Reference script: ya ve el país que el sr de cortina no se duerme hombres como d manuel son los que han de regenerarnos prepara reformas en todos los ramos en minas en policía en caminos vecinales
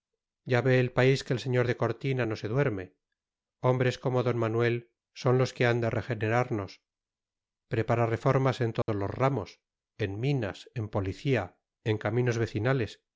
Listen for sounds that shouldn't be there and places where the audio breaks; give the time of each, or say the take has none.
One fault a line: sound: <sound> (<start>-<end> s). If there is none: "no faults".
sound: dropout (8.8-8.9 s)